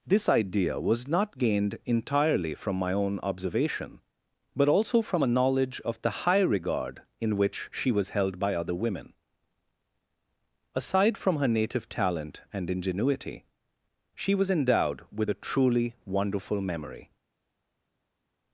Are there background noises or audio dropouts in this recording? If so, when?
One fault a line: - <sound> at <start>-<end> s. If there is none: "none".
none